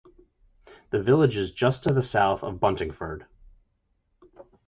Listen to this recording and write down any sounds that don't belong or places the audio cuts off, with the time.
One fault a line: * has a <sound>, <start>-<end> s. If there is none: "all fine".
all fine